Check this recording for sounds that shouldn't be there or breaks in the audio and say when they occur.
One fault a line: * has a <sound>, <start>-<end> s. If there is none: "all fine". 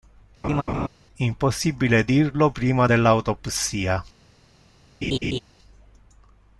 * has a laugh, 0.4-0.9 s
* has a laugh, 5.0-5.4 s